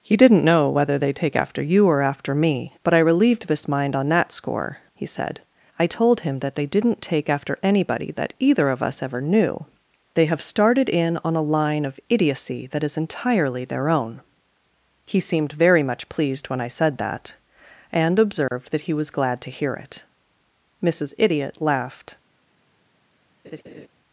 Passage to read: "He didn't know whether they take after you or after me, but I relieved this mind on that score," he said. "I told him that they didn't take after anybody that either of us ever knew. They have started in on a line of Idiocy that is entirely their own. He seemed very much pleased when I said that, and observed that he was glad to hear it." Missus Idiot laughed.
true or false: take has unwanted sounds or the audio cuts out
true